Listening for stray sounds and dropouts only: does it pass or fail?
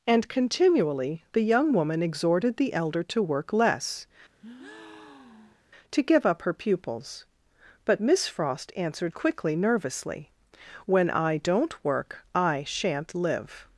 fail